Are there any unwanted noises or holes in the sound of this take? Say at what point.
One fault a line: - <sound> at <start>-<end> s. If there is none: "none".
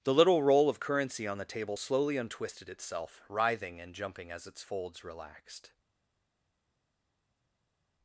none